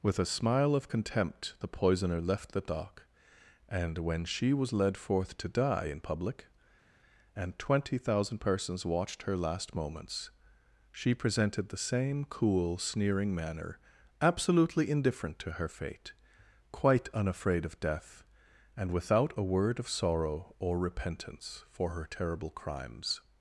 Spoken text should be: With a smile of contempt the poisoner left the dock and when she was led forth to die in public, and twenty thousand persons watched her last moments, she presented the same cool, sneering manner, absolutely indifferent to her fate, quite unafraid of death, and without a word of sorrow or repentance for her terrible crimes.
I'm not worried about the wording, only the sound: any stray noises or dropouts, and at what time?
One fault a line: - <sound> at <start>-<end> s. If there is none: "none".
none